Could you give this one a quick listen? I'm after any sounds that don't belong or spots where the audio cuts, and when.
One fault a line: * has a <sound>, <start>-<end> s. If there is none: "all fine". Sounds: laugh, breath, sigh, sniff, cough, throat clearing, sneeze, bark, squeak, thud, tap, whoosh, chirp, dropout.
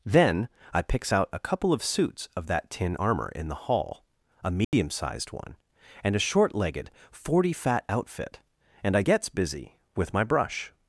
* has a dropout, 4.6-4.7 s